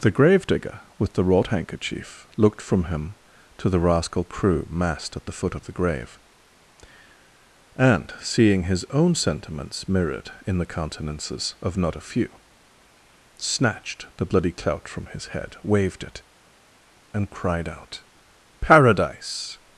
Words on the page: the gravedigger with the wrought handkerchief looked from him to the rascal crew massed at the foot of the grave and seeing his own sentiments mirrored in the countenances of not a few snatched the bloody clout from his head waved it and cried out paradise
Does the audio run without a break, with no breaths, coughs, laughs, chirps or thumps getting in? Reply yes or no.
yes